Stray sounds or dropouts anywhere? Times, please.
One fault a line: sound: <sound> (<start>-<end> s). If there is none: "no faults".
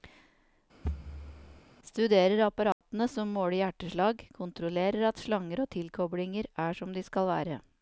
sound: thud (0.8-1.6 s)
sound: dropout (2.7-2.8 s)